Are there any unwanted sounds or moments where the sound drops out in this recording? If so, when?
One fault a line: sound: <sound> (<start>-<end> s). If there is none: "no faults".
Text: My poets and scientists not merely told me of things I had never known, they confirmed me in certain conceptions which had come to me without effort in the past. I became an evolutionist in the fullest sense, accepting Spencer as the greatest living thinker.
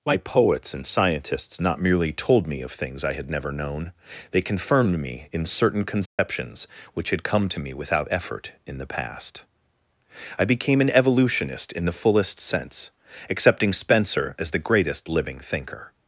sound: dropout (6.1-6.2 s)